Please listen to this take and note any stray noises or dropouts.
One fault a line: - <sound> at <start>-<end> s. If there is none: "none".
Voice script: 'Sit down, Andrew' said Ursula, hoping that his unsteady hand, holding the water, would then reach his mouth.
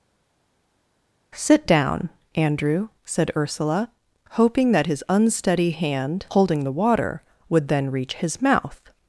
none